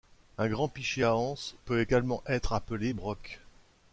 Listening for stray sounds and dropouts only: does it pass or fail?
pass